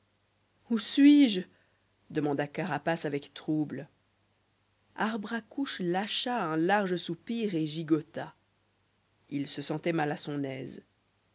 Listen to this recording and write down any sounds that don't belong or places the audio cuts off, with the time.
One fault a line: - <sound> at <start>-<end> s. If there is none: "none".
none